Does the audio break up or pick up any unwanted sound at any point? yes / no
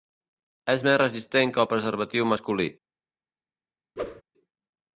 yes